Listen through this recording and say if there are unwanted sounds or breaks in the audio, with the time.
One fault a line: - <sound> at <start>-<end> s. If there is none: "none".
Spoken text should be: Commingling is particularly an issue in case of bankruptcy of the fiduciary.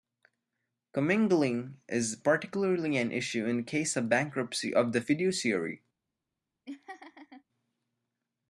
- laugh at 6.7-7.4 s